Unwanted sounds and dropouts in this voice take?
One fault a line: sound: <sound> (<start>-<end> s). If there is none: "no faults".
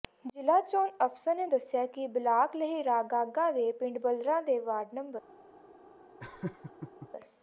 sound: laugh (6.2-7.1 s)